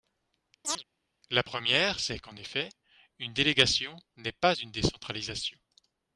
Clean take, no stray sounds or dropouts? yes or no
no